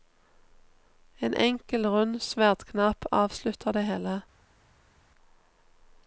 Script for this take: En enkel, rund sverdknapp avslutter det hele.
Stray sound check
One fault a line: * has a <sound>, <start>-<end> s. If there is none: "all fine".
all fine